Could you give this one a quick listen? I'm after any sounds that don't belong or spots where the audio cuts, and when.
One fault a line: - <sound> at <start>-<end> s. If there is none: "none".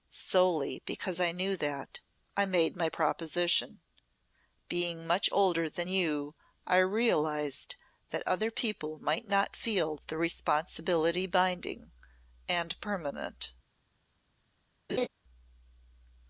- laugh at 14.9-15.1 s